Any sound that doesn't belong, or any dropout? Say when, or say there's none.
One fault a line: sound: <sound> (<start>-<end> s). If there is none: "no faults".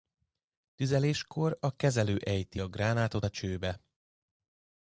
no faults